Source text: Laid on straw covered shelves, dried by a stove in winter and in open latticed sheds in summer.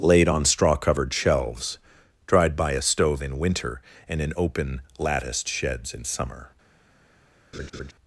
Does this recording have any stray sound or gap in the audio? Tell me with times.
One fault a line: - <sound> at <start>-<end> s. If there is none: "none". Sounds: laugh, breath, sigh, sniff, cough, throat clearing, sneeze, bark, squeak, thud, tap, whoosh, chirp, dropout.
- laugh at 7.5-7.9 s